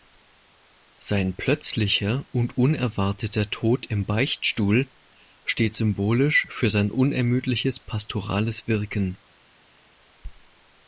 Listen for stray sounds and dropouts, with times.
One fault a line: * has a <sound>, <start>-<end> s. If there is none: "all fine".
all fine